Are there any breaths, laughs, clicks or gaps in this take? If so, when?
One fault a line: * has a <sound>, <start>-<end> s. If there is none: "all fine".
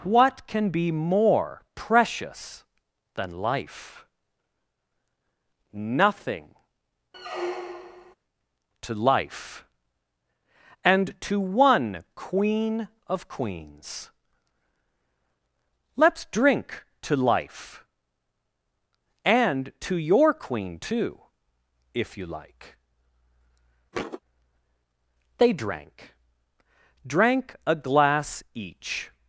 * has a squeak, 7.1-8.2 s
* has a thud, 23.9-24.2 s